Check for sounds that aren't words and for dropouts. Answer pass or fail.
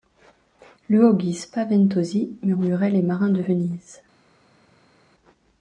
pass